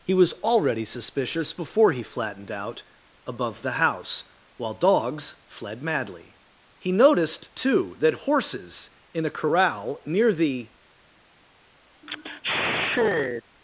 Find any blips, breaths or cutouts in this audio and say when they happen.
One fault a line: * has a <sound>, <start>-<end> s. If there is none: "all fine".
* has a sigh, 12.0-13.4 s